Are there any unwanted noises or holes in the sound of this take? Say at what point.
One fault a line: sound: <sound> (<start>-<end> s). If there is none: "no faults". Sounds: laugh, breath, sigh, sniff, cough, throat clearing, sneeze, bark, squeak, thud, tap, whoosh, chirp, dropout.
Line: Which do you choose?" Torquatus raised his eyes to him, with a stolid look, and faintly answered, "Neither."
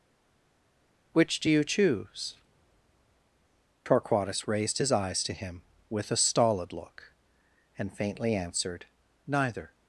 no faults